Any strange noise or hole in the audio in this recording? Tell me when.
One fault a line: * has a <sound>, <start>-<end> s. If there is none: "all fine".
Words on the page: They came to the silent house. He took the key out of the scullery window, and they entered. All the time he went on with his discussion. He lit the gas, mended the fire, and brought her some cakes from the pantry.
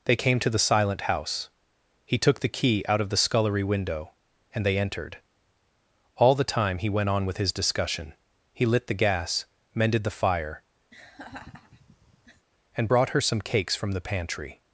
* has a laugh, 10.9-12.5 s